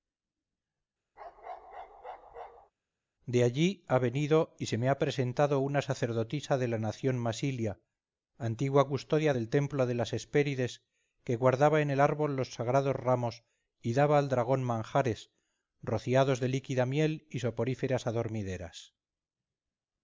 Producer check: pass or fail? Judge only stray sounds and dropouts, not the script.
fail